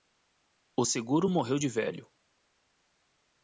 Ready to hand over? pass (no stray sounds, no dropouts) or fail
pass